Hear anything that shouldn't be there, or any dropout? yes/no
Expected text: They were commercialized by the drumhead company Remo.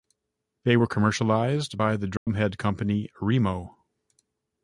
yes